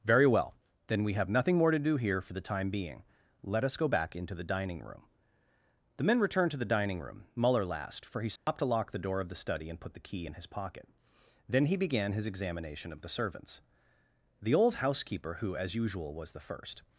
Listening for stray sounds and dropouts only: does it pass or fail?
fail